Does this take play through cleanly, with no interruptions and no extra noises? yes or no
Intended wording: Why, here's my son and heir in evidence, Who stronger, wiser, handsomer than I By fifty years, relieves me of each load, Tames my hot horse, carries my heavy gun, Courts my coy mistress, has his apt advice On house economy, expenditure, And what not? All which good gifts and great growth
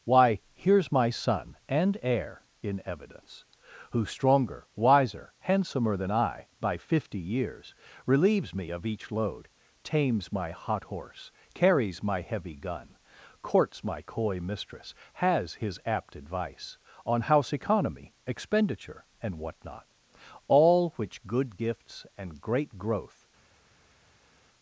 yes